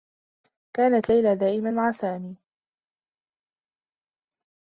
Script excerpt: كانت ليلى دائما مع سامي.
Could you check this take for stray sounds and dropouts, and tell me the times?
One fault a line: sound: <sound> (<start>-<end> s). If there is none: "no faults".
no faults